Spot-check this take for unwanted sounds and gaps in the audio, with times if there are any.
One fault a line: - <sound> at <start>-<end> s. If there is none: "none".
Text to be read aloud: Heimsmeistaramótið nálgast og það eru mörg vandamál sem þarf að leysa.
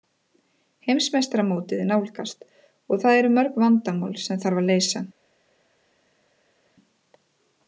none